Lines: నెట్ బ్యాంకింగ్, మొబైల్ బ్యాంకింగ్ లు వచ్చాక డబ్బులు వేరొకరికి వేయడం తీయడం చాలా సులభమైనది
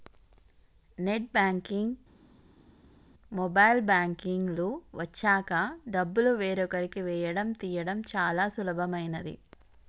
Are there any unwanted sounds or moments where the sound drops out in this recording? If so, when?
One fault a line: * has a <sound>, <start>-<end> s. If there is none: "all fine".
all fine